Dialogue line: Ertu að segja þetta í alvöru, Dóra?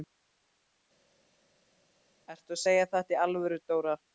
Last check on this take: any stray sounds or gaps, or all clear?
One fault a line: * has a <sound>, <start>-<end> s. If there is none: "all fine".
all fine